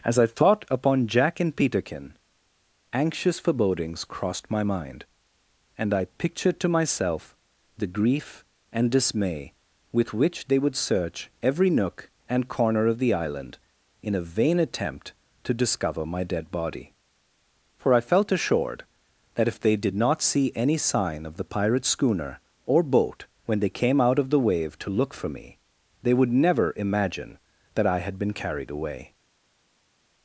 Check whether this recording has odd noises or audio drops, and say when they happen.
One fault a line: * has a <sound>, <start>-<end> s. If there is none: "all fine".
all fine